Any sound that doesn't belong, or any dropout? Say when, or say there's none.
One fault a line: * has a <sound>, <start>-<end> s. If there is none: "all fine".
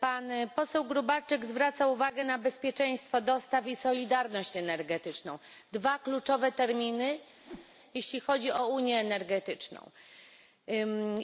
* has a whoosh, 7.4-7.7 s